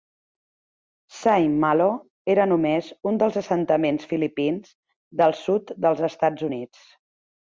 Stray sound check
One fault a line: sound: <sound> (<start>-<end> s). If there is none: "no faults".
no faults